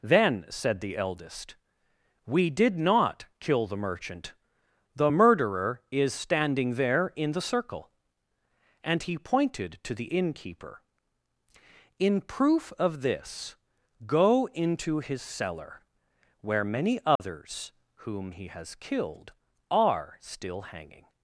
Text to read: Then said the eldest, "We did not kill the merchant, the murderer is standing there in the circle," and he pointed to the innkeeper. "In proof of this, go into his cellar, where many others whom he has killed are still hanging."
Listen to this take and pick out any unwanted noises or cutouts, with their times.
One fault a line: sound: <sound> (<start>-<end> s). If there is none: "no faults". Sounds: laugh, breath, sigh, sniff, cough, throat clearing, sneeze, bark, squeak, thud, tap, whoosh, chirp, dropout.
sound: dropout (17.2-17.2 s)